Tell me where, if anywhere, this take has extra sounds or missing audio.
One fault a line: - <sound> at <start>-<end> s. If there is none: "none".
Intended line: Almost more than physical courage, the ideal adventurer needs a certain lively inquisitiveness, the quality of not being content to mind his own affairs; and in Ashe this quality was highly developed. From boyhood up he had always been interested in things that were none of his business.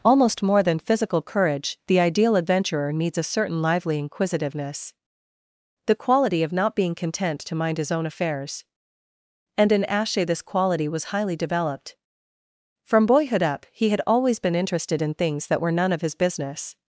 none